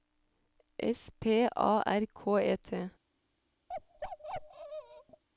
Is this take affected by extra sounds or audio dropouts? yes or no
yes